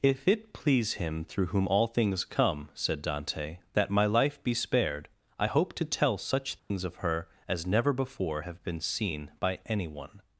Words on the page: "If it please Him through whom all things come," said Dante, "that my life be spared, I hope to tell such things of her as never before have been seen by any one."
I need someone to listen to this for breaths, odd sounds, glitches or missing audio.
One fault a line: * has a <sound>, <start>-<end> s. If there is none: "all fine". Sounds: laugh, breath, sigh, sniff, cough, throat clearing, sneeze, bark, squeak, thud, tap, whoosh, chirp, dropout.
* has a dropout, 6.6-6.7 s